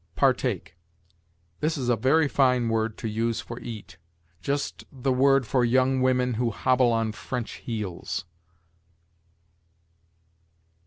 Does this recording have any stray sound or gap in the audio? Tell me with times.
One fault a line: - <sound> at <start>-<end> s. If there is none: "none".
none